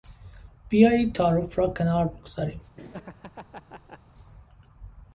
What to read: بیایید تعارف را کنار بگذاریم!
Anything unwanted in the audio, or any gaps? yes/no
yes